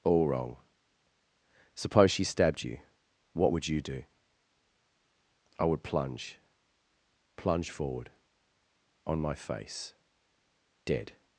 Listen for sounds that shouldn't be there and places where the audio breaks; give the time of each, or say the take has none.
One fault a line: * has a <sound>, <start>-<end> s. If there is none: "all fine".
all fine